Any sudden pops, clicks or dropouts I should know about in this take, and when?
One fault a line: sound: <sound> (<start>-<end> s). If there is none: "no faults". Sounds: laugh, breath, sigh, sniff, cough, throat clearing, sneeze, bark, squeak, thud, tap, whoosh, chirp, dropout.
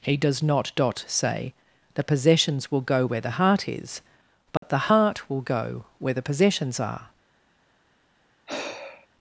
sound: dropout (4.6-4.6 s)
sound: sigh (8.5-9.1 s)